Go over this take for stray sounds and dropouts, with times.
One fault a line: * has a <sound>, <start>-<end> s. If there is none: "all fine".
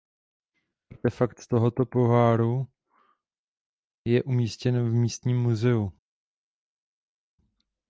all fine